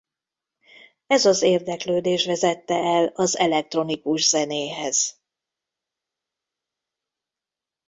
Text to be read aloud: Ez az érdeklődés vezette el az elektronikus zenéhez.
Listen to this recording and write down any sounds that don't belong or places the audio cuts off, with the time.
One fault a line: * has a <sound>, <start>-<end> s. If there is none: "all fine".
all fine